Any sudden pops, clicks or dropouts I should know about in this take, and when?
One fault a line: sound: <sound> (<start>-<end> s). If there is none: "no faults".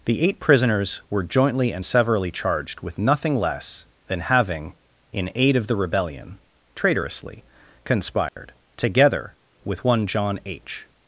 sound: dropout (8.3-8.4 s)